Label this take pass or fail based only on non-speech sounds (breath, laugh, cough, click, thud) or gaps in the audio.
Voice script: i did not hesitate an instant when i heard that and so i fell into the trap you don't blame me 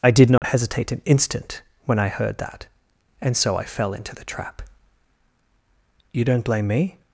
fail